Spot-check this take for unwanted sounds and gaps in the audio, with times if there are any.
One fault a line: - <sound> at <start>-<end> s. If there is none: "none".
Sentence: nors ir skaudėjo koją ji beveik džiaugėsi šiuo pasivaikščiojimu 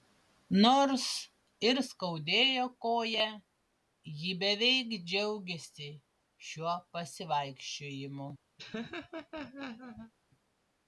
- laugh at 8.6-10.1 s